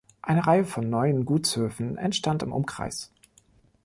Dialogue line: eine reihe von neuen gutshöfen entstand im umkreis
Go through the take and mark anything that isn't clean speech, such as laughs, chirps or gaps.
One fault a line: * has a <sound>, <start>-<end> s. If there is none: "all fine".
all fine